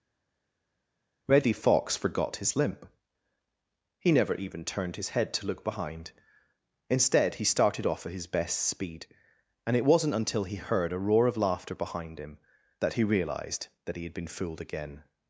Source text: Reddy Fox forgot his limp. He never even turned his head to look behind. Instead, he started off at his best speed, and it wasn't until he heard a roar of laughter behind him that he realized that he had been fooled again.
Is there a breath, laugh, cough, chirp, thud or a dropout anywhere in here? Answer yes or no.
no